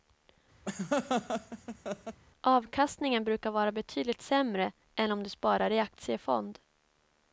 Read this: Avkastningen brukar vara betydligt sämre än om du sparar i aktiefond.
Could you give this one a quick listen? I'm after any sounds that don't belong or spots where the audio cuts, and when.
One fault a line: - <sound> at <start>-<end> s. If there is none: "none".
- laugh at 0.7-2.2 s